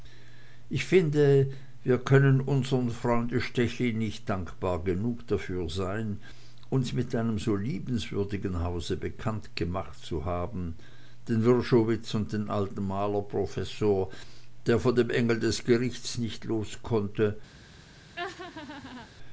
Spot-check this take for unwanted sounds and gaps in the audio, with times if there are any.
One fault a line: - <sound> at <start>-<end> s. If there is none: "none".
- laugh at 18.2-19.1 s